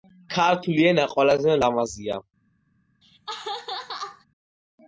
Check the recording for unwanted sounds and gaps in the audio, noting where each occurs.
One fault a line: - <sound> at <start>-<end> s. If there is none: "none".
- laugh at 3.0-4.3 s